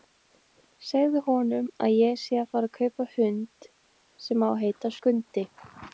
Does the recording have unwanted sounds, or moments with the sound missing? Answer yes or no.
no